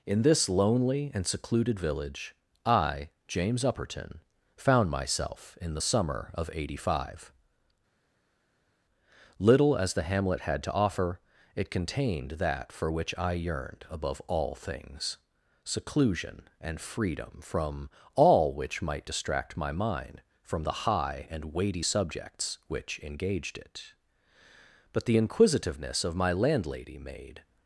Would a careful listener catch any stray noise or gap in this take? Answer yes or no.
no